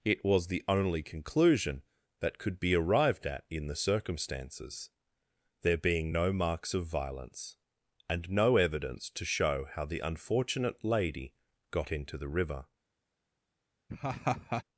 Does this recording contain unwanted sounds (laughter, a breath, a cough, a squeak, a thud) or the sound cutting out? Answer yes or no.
yes